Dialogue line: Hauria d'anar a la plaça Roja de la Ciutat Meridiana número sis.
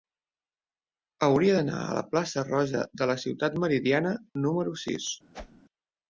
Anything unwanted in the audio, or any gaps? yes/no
yes